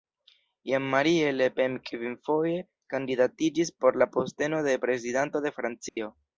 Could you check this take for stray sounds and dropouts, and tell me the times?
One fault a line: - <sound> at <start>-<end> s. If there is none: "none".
- dropout at 5.9-6.0 s